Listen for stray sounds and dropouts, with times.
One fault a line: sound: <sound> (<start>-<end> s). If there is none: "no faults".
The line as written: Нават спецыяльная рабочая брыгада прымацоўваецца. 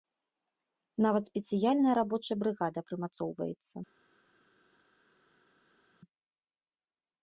no faults